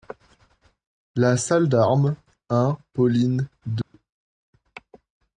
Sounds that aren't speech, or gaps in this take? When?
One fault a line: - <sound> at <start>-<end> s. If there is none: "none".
- dropout at 3.8-3.9 s